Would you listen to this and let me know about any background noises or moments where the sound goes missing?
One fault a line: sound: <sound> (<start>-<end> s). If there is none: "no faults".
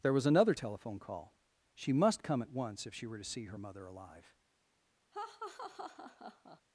sound: laugh (5.1-6.6 s)